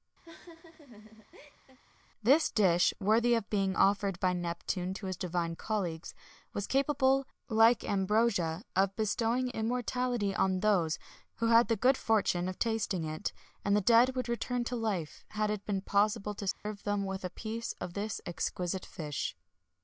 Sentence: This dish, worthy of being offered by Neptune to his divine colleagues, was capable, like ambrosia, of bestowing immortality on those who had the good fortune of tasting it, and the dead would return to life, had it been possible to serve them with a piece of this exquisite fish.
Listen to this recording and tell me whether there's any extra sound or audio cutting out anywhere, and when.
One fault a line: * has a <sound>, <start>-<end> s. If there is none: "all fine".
* has a laugh, 0.2-1.8 s
* has a dropout, 16.5-16.7 s